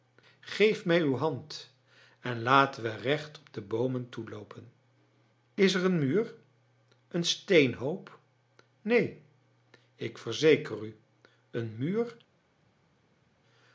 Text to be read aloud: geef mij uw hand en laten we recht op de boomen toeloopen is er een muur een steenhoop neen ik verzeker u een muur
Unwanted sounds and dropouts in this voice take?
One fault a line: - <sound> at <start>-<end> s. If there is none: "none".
none